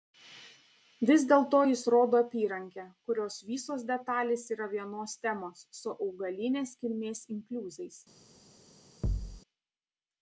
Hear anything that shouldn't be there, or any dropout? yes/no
yes